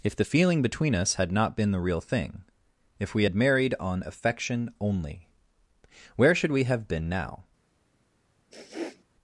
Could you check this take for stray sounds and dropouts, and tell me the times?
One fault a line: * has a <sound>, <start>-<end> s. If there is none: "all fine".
* has a sniff, 8.5-9.0 s